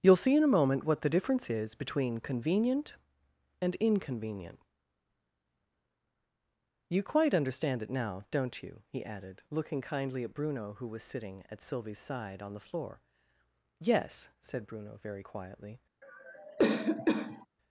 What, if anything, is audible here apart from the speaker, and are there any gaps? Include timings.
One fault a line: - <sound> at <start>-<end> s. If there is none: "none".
- cough at 16.0-17.5 s